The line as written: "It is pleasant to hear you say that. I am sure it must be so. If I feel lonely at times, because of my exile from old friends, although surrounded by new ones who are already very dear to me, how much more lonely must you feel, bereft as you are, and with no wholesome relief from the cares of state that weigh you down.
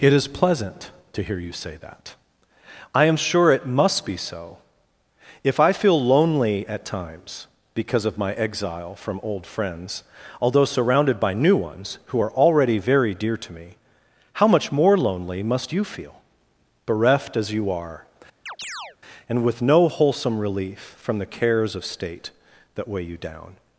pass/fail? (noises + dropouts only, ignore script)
fail